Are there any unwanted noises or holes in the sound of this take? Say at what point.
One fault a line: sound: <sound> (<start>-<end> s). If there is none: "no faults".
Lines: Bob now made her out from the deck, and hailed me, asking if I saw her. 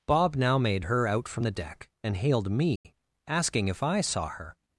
sound: dropout (2.8-2.8 s)